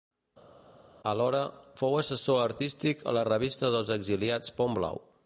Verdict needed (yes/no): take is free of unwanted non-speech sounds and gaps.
yes